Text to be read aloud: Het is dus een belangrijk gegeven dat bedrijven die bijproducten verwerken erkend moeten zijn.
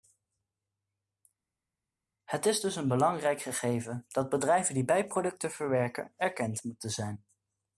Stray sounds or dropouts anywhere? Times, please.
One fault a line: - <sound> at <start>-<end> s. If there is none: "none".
none